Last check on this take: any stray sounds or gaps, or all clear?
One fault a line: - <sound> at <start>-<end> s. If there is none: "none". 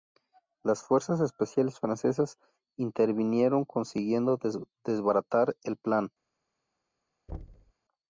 - thud at 7.3-7.7 s